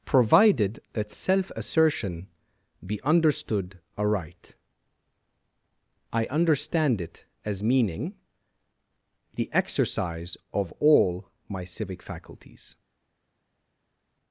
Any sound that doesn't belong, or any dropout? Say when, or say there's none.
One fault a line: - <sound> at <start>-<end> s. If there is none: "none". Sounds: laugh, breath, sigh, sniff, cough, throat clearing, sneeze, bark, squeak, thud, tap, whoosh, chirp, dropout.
none